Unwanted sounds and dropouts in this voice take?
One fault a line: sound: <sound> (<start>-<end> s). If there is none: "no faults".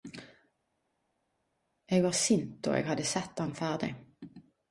no faults